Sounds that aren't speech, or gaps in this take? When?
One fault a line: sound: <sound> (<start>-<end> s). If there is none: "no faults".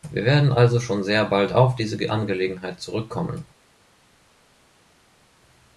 no faults